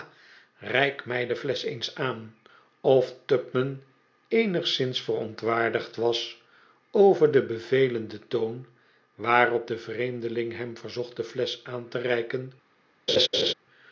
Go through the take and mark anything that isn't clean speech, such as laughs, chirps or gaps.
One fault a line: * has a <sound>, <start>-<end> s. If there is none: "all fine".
* has a laugh, 13.1-13.5 s